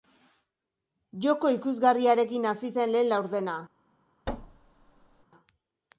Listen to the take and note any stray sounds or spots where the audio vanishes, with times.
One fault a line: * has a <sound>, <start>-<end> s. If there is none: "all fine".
* has a thud, 4.3-5.2 s